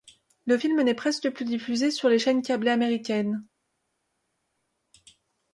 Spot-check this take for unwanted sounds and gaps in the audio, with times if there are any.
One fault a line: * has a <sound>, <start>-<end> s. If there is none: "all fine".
all fine